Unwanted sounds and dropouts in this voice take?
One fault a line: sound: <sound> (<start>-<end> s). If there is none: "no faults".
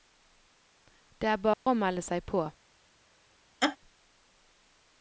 sound: dropout (1.5-1.7 s)
sound: laugh (3.6-3.8 s)